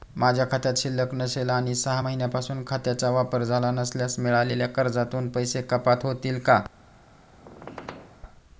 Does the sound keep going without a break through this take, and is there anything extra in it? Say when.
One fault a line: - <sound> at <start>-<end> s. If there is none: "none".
- squeak at 7.3-8.2 s